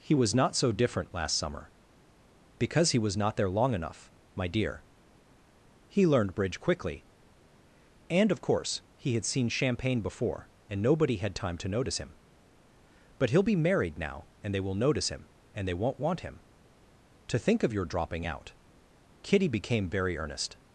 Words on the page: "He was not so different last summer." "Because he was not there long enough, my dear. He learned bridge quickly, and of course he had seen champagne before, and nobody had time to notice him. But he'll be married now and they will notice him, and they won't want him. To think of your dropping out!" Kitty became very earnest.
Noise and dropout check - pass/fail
pass